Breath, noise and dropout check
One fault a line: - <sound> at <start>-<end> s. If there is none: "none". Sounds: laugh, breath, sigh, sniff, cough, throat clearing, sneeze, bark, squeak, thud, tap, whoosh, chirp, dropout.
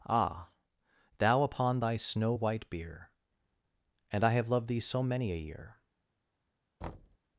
- thud at 6.8-7.2 s